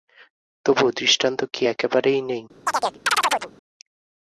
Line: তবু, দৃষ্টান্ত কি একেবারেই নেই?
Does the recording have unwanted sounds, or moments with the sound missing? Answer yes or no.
yes